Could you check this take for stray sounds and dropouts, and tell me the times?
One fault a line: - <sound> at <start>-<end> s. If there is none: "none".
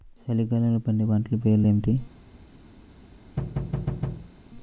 - thud at 3.4-4.3 s